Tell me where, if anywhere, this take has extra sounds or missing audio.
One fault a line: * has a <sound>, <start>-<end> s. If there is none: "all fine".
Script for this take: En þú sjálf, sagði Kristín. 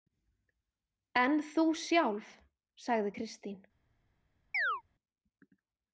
* has a chirp, 4.5-4.8 s